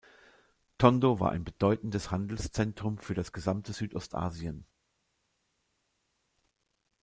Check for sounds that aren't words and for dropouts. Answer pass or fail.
pass